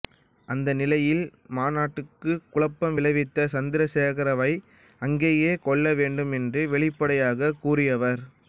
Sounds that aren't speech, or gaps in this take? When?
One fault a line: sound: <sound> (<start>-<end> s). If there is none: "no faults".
no faults